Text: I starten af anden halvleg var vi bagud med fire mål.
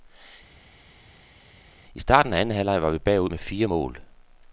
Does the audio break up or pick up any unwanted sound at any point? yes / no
no